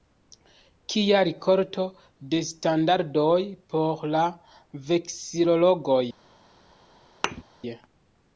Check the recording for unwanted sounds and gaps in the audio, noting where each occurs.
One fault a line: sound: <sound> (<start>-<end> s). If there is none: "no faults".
sound: thud (7.2-7.4 s)